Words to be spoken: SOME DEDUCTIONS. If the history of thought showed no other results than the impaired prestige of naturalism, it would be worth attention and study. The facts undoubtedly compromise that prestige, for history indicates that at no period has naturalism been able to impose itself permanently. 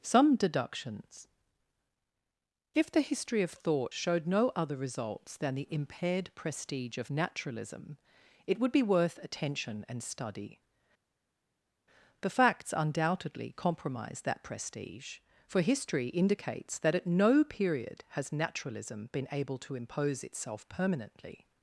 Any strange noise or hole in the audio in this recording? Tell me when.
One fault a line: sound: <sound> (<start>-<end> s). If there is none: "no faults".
no faults